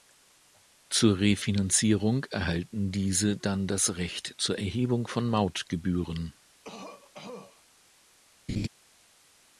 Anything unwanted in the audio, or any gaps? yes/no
yes